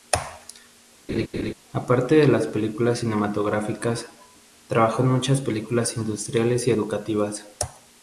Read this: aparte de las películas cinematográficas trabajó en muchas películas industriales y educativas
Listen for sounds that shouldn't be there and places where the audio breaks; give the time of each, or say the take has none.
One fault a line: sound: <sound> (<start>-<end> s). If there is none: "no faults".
sound: laugh (1.1-1.5 s)